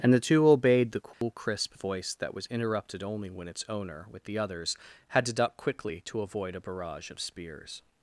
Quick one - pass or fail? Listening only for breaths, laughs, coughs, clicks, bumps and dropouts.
fail